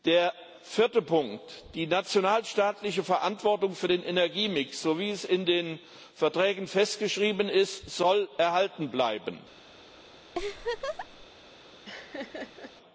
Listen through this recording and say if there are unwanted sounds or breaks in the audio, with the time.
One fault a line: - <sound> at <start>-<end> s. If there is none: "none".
- laugh at 10.3-11.3 s
- laugh at 11.8-12.7 s